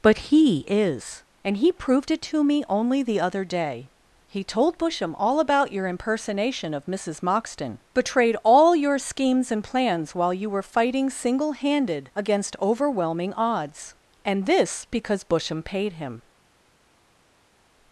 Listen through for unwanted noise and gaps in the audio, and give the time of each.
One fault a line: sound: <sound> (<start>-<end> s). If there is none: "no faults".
no faults